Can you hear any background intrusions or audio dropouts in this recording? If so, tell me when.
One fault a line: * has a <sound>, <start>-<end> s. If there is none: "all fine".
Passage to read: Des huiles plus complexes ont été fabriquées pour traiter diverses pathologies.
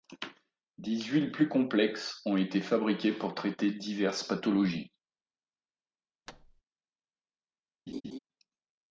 * has a thud, 6.3-6.6 s
* has a laugh, 7.9-8.2 s